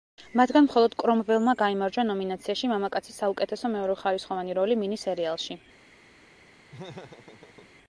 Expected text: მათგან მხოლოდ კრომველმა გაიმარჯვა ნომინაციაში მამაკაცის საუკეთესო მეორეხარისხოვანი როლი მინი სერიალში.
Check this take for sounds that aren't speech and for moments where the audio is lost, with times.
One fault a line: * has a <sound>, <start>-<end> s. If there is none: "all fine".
* has a laugh, 6.7-7.7 s